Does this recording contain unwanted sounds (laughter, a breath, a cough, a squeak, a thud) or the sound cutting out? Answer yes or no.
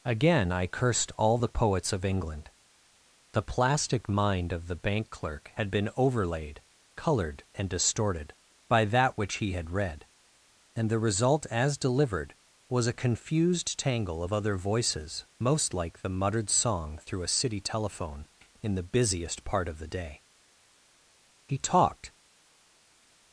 no